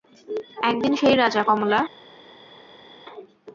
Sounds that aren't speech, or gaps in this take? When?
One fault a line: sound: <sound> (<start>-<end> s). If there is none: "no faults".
no faults